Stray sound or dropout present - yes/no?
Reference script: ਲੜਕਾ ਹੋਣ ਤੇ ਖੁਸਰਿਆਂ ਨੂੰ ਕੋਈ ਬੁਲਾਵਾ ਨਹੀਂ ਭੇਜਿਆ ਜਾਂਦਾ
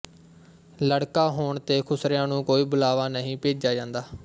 no